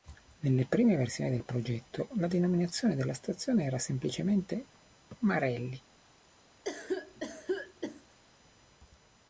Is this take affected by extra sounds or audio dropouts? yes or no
yes